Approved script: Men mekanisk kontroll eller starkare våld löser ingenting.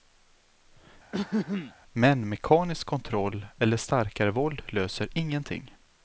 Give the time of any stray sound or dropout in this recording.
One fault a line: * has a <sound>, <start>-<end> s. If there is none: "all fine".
* has a throat clearing, 1.1-1.7 s